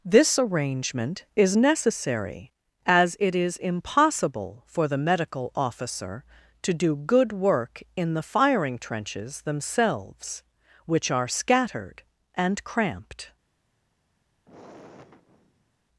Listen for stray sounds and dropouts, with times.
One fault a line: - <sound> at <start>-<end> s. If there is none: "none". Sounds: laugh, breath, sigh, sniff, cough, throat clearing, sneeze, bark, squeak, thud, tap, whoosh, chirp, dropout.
- sigh at 14.5-15.8 s